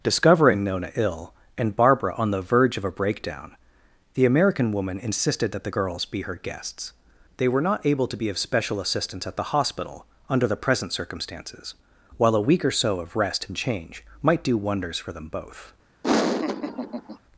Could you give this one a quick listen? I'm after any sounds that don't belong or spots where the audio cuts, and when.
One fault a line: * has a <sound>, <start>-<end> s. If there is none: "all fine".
* has a laugh, 16.0-17.2 s